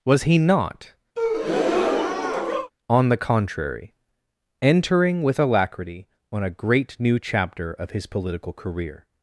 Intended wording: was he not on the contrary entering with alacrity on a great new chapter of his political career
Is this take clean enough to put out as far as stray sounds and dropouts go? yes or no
no